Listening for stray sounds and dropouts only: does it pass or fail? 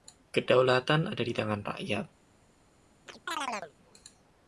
fail